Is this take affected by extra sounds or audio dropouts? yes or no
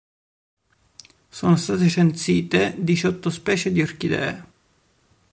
no